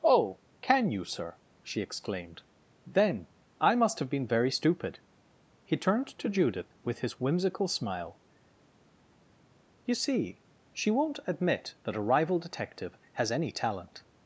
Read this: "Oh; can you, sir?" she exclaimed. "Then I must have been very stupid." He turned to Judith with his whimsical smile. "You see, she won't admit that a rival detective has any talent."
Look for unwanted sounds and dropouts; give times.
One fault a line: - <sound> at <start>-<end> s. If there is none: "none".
none